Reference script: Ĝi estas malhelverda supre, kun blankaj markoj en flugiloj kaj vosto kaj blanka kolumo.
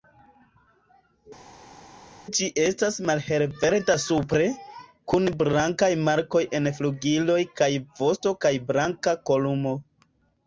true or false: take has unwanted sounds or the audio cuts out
false